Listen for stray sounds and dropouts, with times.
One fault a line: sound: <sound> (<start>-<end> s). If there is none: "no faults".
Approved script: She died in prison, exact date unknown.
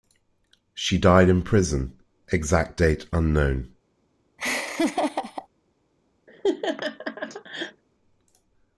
sound: laugh (4.4-5.5 s)
sound: laugh (6.3-7.8 s)